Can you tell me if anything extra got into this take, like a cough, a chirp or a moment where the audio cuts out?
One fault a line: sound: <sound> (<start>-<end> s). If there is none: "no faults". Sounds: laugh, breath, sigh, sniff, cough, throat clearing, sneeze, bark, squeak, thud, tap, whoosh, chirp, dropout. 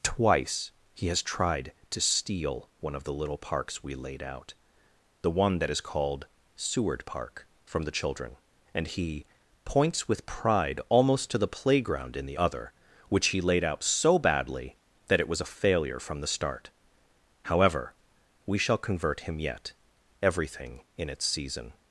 no faults